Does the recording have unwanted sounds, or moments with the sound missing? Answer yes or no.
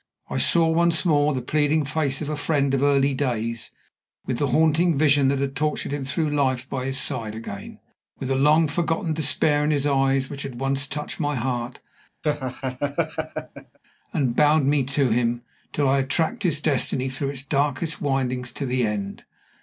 yes